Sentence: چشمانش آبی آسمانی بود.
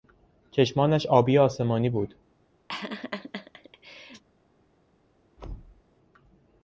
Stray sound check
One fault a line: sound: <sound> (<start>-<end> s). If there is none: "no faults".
sound: laugh (2.7-4.2 s)
sound: thud (5.4-5.8 s)